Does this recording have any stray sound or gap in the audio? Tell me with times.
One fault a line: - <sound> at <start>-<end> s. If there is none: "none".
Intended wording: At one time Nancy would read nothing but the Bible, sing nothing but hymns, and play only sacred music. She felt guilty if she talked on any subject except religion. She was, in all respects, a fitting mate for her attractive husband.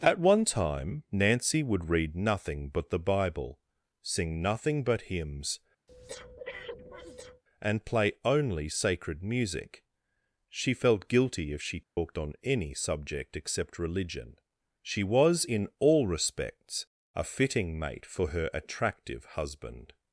- breath at 5.9-7.4 s
- dropout at 11.8-12.0 s